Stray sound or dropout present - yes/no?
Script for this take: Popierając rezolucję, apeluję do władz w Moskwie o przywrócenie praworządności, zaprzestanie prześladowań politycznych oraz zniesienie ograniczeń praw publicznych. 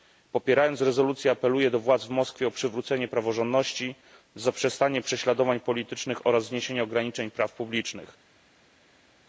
no